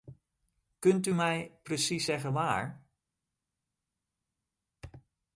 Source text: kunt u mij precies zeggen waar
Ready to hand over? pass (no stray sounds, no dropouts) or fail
pass